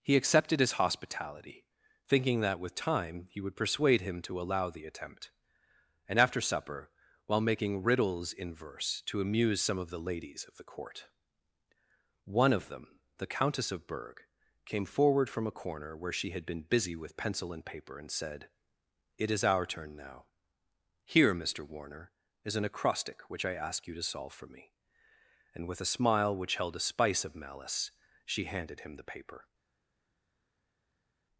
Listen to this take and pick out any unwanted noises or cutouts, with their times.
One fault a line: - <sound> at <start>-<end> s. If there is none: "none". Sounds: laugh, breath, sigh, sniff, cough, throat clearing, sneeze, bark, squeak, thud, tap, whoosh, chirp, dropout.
none